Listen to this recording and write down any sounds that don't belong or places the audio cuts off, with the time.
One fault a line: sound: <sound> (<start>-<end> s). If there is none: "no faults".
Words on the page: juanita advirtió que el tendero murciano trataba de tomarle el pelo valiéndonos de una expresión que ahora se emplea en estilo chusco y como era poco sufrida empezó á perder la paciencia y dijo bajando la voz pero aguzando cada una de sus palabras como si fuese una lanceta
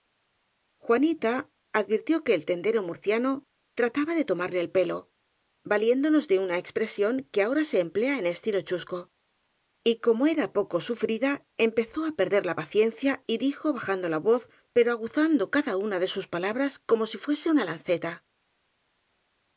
no faults